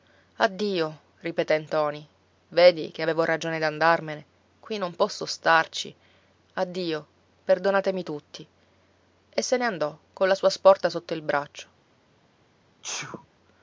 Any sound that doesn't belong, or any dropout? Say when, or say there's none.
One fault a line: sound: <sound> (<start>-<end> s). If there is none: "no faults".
sound: sneeze (12.8-13.3 s)